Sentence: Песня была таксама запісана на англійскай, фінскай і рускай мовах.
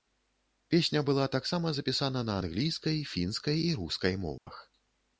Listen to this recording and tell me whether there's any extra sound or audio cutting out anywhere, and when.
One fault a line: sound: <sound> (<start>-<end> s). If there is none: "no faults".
sound: dropout (4.4-4.5 s)